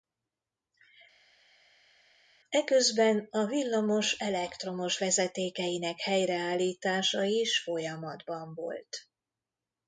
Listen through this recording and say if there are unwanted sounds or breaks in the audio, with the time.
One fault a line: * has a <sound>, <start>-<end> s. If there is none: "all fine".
all fine